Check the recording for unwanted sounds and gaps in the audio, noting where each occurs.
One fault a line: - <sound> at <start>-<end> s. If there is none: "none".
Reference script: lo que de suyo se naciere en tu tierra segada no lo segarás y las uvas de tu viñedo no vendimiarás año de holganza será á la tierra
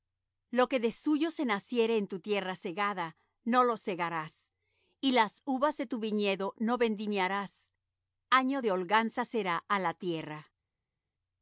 none